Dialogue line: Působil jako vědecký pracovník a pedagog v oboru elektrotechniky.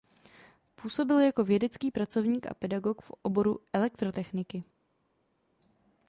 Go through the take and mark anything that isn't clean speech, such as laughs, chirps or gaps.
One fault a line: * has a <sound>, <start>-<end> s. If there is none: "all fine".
all fine